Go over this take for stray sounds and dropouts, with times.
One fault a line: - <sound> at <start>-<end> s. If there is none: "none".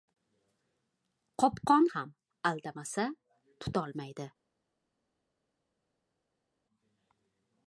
none